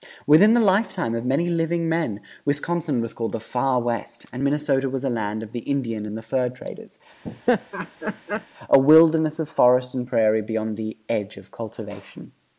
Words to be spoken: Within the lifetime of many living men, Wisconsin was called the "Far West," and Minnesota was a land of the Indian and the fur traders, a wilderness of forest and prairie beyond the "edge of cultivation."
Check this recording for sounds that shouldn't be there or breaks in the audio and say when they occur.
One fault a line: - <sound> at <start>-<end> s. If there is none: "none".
- laugh at 7.2-8.5 s